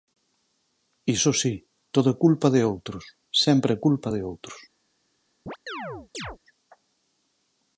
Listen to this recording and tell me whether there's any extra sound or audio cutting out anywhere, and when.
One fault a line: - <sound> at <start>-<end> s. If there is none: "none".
- chirp at 5.5-6.4 s